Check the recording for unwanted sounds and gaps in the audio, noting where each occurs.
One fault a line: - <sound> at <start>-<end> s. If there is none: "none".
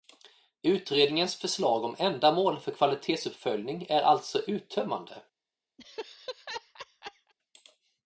- laugh at 5.8-7.3 s